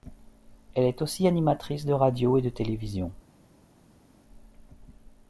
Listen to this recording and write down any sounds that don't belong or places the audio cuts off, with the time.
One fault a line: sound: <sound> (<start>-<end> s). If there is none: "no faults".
no faults